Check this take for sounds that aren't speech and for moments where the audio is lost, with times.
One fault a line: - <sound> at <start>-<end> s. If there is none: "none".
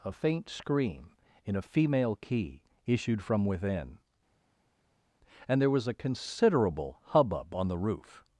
none